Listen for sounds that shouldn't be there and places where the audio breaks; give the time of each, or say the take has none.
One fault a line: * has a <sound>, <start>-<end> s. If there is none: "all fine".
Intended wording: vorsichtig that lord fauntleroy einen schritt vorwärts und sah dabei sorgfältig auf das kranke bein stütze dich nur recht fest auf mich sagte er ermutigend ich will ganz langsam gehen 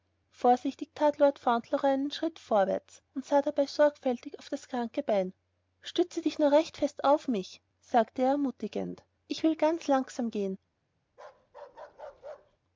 * has a bark, 11.1-12.6 s